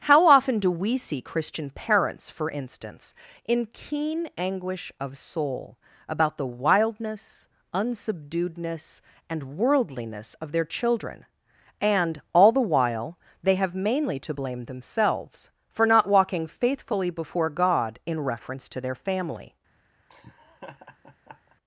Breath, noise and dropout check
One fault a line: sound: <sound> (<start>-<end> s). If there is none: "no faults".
sound: laugh (20.1-21.6 s)